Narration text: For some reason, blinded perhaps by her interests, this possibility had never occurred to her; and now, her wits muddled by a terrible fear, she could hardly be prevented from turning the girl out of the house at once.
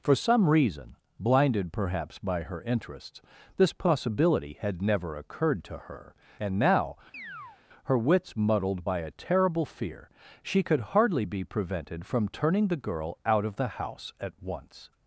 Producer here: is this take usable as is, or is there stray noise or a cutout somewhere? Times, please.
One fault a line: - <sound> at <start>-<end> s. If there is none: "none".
- chirp at 7.1-7.6 s